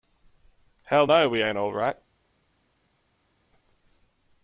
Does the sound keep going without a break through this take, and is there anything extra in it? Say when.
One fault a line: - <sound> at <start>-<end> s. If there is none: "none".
none